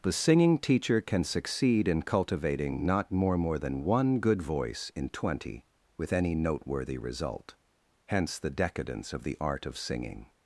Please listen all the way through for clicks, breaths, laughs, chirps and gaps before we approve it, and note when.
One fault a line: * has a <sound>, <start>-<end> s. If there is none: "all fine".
all fine